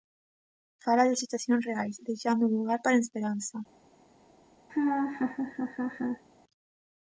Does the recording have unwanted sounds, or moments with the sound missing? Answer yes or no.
yes